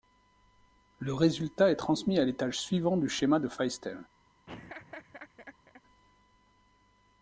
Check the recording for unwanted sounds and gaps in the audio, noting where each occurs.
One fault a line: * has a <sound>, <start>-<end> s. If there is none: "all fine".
* has a laugh, 4.5-5.8 s